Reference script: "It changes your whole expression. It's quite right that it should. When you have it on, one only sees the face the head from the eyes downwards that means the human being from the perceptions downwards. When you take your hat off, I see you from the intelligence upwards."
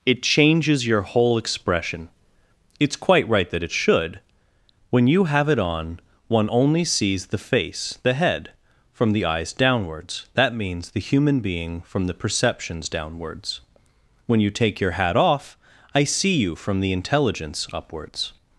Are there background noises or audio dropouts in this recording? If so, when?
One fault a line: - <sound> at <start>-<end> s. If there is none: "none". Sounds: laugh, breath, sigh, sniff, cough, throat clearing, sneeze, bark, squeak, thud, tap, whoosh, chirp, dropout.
none